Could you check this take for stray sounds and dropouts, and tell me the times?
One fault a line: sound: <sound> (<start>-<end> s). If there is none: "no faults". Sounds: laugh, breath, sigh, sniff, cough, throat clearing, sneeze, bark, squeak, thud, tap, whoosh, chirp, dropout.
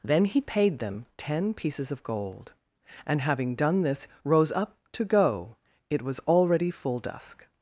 no faults